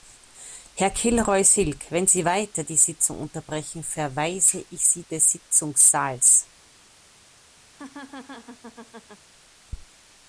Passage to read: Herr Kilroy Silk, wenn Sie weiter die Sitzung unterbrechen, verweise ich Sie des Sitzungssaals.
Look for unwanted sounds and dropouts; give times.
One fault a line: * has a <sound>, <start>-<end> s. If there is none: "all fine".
* has a laugh, 7.7-9.3 s